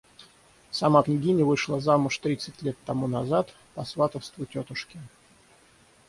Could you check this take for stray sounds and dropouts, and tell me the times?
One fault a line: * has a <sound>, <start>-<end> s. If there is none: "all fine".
all fine